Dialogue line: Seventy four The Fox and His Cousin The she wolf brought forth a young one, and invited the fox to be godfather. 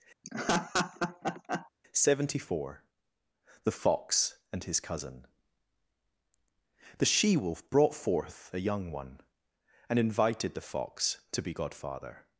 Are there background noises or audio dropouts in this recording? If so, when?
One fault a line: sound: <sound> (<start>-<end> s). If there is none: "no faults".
sound: laugh (0.2-1.7 s)